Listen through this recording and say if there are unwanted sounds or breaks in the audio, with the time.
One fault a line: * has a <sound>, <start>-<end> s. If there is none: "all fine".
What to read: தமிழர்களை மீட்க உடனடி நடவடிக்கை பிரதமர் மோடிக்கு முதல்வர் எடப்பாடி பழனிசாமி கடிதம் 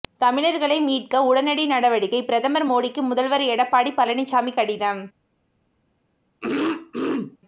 * has a throat clearing, 6.4-7.4 s